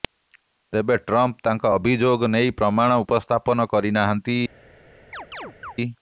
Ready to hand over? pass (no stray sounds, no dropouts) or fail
fail